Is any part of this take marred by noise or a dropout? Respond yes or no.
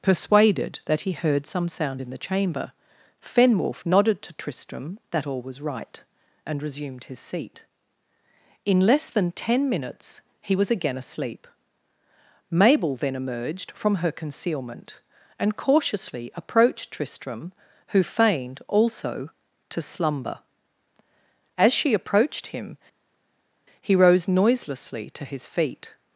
no